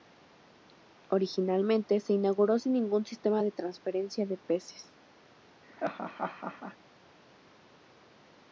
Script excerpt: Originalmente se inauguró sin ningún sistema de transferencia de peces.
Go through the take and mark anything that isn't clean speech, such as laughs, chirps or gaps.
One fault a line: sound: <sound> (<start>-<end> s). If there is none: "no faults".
sound: laugh (5.6-6.8 s)